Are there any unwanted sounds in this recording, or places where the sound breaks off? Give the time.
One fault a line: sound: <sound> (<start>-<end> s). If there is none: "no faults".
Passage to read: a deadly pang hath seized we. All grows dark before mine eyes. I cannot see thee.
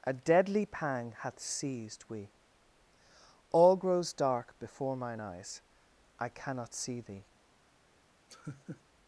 sound: laugh (8.3-8.8 s)